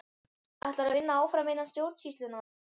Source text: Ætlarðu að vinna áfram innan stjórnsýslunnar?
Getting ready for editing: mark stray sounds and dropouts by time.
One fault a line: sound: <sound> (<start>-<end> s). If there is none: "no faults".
no faults